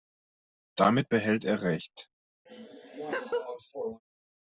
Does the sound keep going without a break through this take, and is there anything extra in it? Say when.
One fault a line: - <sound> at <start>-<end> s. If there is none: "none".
- laugh at 2.5-4.0 s